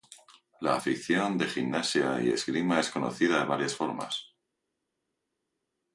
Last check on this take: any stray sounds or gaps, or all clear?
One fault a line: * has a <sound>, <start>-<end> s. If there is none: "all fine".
all fine